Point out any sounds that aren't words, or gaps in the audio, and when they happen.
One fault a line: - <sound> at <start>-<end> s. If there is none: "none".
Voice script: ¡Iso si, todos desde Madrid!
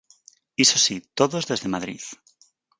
none